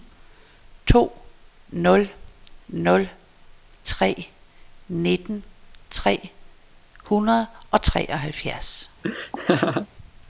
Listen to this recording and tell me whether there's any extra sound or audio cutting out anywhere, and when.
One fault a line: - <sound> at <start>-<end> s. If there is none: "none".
- laugh at 9.0-9.9 s